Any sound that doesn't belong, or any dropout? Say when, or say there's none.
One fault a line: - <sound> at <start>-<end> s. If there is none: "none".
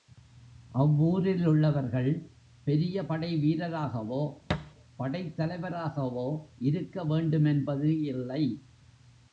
- thud at 4.5-4.7 s